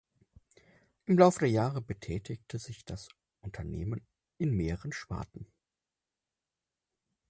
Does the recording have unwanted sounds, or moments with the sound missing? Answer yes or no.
no